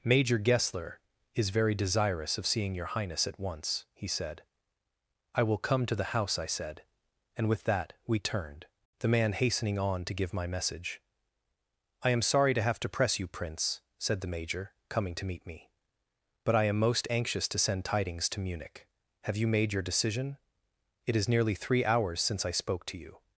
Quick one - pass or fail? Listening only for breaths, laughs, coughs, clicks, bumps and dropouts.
pass